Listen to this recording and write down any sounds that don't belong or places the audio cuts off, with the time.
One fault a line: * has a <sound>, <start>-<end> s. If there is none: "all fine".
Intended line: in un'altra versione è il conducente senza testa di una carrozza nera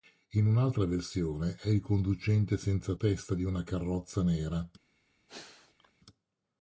* has a sneeze, 5.3-5.9 s